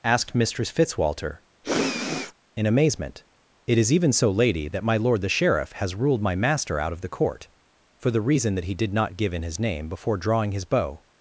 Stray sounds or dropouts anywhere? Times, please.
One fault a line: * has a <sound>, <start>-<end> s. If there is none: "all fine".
* has a sniff, 1.6-2.3 s